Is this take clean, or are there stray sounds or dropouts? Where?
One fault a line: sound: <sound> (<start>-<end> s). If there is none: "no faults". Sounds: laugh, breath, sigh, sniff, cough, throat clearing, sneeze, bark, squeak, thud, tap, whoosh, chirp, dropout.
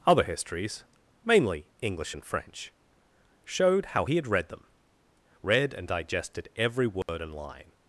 sound: dropout (7.0-7.1 s)